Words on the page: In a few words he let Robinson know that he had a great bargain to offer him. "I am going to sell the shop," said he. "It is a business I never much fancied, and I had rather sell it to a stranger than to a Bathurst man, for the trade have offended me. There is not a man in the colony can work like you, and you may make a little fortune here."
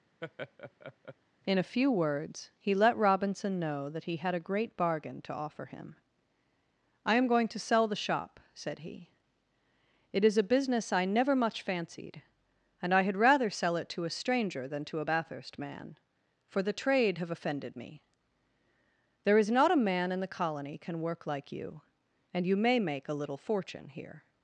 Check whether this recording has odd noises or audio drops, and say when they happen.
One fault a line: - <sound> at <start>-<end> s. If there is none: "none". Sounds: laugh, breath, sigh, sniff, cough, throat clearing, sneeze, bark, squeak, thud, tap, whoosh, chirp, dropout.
- laugh at 0.2-1.2 s